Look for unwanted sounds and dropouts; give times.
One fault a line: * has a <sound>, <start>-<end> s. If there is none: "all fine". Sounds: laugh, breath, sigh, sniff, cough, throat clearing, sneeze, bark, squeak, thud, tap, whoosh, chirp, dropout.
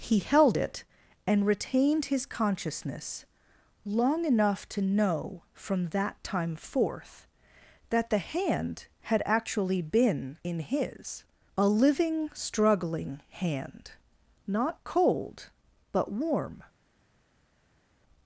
all fine